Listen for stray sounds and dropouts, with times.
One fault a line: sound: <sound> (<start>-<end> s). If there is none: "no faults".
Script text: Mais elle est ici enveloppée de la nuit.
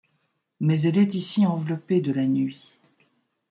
no faults